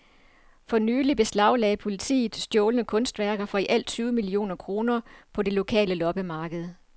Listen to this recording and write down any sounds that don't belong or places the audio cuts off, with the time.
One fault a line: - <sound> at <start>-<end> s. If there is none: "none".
none